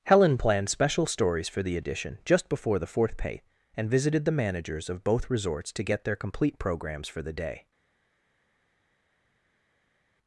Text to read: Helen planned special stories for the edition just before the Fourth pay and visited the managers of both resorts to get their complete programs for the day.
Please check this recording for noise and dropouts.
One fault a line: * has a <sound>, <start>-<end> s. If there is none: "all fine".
all fine